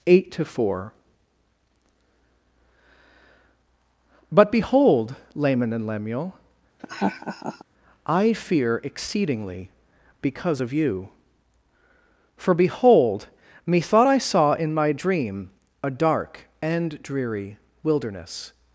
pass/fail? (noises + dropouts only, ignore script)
fail